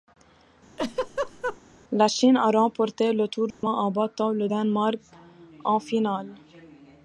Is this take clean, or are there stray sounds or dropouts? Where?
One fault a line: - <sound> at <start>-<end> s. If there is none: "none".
- laugh at 0.8-1.6 s
- dropout at 3.5-3.6 s